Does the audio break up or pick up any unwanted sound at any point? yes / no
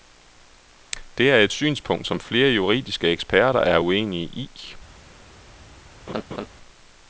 yes